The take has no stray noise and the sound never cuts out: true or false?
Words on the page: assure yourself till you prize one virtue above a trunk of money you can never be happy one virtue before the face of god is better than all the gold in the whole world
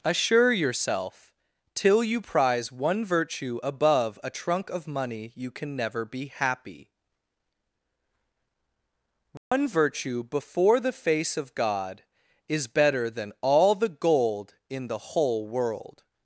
false